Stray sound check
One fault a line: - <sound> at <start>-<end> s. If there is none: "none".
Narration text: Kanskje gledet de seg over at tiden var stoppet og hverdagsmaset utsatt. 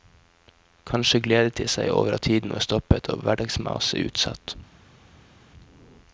none